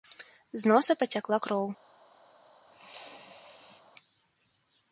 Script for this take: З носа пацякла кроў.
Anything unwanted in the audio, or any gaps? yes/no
yes